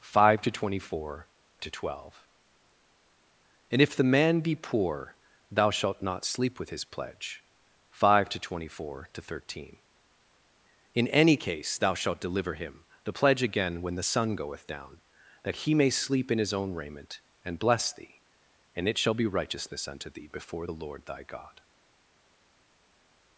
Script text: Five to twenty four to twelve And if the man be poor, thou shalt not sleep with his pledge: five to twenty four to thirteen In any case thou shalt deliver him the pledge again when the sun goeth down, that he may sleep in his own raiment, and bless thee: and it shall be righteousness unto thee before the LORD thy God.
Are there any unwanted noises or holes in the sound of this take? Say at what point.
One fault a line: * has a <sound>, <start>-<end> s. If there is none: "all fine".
all fine